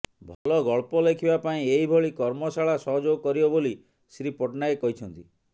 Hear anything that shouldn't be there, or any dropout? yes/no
yes